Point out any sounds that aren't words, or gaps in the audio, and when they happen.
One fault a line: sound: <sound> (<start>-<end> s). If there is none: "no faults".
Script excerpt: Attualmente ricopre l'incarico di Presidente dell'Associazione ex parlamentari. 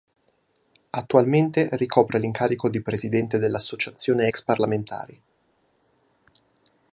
no faults